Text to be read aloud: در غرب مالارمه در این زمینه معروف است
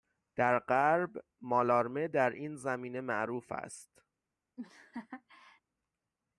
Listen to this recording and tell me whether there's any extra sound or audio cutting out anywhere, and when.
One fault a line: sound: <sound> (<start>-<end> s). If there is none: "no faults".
sound: laugh (4.6-5.6 s)